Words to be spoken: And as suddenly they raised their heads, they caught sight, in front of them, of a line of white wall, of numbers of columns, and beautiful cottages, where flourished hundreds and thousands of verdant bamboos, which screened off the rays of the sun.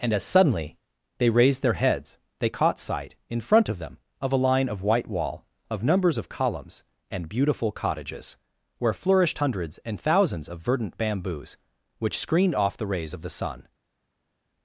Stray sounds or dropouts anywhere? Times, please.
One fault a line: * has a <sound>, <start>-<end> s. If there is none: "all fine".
all fine